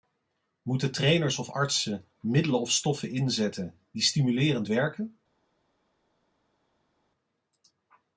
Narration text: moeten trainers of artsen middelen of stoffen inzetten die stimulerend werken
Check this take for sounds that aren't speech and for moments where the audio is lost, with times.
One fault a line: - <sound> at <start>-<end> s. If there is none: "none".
none